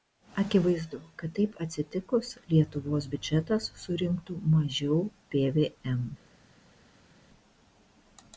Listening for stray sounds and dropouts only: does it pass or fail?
pass